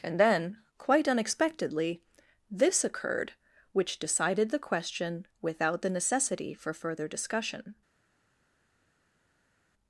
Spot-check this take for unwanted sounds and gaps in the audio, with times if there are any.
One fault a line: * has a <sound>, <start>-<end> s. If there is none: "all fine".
all fine